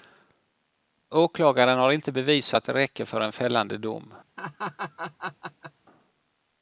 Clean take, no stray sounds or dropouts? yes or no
no